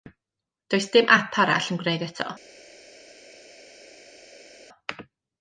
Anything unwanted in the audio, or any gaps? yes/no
no